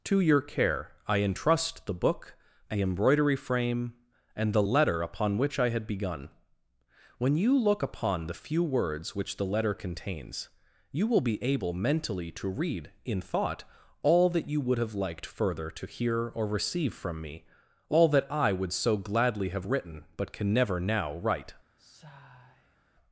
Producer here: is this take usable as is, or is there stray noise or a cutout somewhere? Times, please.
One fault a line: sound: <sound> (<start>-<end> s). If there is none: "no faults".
sound: sigh (21.8-22.8 s)